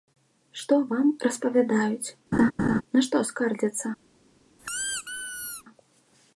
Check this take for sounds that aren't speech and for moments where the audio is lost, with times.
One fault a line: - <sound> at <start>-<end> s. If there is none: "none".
- laugh at 2.3-2.8 s
- squeak at 4.6-5.6 s